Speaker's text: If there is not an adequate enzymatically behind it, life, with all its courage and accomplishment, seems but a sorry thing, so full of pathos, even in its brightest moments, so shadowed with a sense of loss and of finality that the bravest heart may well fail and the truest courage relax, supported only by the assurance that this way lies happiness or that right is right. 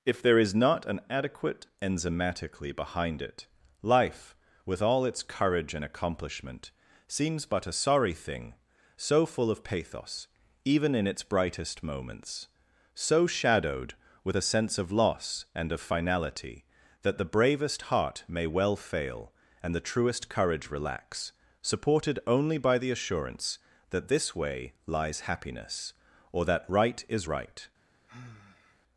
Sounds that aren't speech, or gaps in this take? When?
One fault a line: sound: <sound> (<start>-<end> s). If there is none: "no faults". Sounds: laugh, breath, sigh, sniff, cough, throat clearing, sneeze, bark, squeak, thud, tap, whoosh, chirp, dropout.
sound: sigh (28.1-28.8 s)